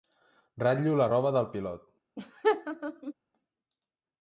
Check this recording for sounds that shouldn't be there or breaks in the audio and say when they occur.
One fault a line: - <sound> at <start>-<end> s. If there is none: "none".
- laugh at 2.2-3.1 s